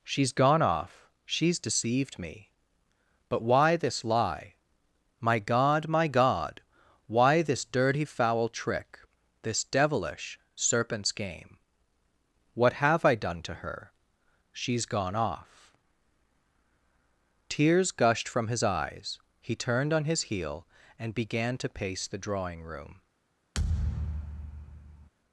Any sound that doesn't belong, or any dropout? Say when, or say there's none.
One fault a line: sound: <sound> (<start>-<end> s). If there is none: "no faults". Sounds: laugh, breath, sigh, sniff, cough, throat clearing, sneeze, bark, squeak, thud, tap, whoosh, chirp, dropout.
sound: thud (23.5-25.1 s)